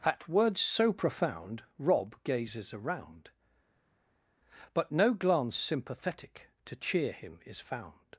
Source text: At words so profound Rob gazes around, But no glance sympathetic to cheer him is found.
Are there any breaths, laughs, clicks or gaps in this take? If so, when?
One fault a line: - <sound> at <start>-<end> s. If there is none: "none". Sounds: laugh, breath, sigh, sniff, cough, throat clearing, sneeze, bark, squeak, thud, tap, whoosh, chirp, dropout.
none